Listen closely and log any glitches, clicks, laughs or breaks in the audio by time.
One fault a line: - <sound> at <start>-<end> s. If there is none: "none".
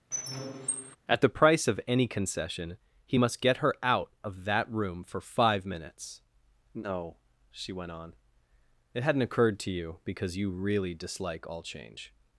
- squeak at 0.1-1.0 s